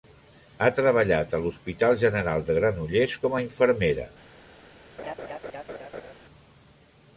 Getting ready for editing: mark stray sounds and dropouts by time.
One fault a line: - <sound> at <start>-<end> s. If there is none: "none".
- laugh at 5.0-6.1 s